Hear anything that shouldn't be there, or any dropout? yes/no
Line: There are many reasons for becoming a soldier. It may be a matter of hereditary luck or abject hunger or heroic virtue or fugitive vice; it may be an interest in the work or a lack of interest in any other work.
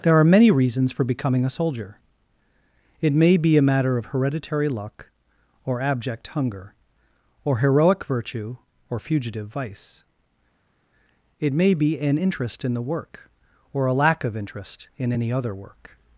no